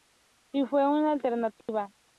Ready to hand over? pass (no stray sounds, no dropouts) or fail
fail